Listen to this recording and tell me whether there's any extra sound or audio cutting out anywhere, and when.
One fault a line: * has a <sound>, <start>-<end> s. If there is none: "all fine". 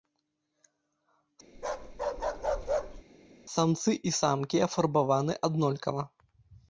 * has a bark, 1.5-3.0 s